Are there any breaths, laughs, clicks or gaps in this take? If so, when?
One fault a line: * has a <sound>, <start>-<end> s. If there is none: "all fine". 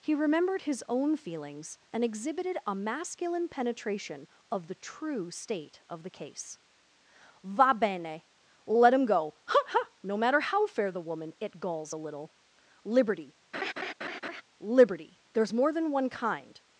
* has a laugh, 13.5-14.4 s